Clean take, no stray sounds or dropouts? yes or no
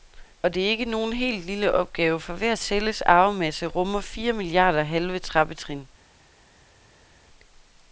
yes